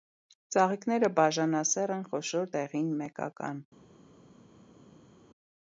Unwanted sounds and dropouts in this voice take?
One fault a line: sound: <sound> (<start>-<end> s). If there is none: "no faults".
no faults